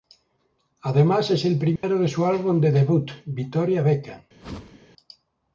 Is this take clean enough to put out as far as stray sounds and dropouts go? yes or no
no